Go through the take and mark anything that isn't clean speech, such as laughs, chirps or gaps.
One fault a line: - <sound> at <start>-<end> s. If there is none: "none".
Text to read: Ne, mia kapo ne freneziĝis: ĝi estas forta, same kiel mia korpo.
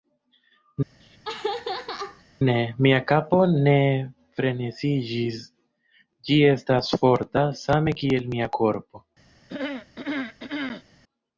- laugh at 1.0-2.2 s
- throat clearing at 9.5-10.8 s